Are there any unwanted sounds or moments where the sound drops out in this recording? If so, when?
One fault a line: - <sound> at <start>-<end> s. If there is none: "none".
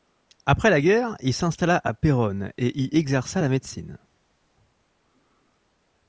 none